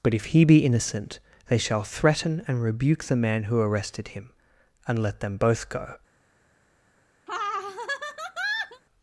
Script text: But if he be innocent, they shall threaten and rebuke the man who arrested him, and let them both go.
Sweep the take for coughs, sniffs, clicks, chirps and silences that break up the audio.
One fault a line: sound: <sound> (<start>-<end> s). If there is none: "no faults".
sound: laugh (7.3-8.8 s)